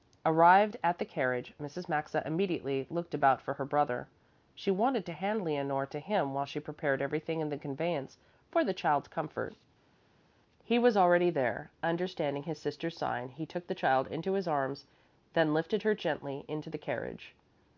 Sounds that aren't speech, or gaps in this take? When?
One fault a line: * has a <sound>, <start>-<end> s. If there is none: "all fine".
all fine